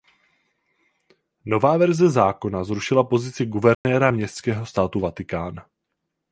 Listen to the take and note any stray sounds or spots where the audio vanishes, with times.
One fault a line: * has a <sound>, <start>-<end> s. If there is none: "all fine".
* has a dropout, 3.7-3.8 s